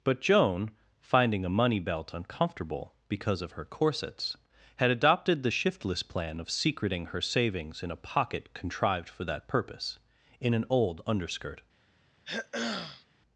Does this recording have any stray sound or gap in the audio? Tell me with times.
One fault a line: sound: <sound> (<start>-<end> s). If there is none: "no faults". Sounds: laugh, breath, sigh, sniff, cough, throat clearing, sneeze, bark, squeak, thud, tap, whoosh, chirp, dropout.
sound: throat clearing (12.3-13.1 s)